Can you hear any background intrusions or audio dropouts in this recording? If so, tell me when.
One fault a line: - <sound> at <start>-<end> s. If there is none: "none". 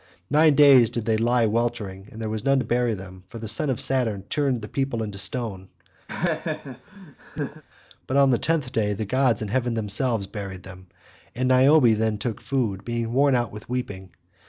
- laugh at 6.1-7.6 s